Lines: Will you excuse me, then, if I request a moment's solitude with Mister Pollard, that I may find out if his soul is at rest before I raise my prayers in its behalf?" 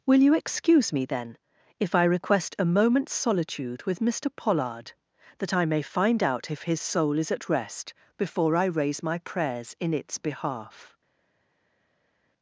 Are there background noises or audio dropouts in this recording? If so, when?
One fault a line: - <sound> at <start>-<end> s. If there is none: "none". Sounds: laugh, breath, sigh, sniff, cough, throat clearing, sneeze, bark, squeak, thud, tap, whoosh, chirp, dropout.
none